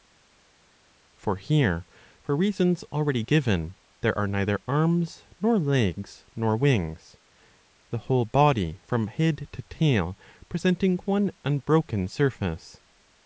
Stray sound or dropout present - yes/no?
no